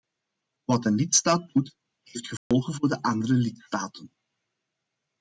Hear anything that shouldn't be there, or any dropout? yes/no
yes